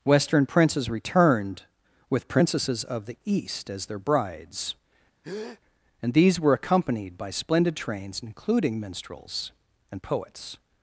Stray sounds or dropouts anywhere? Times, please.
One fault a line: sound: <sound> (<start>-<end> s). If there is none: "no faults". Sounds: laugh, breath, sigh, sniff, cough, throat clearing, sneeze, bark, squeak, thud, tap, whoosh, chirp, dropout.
sound: breath (5.2-5.6 s)